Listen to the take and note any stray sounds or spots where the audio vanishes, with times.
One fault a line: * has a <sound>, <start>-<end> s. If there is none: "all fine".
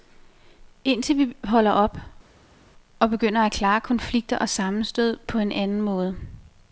all fine